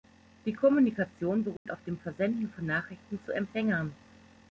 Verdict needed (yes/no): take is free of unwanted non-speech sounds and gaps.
no